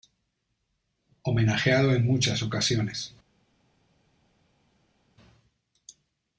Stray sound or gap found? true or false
false